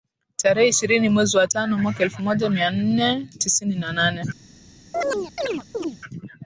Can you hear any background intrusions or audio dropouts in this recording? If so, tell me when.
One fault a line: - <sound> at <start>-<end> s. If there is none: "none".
- chirp at 4.9-6.0 s